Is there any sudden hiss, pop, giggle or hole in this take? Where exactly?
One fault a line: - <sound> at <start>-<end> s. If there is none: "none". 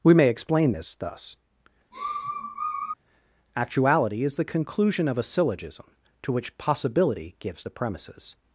- sniff at 1.9-3.0 s